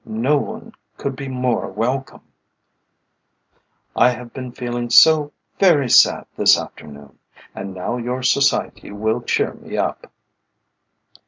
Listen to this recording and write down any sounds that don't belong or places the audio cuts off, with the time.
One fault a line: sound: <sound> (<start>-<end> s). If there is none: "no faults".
no faults